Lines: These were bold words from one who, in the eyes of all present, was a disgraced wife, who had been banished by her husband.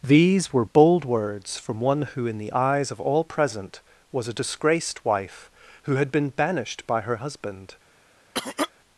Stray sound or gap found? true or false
true